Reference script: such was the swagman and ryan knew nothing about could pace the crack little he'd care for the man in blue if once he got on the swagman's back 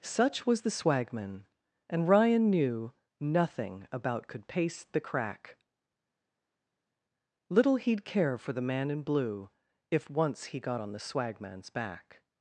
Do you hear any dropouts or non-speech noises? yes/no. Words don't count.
no